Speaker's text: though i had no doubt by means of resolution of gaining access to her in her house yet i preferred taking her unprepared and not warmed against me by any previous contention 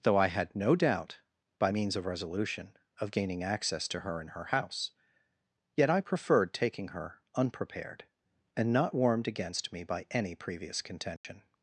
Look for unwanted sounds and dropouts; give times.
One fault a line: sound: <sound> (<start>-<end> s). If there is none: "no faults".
sound: dropout (11.2-11.2 s)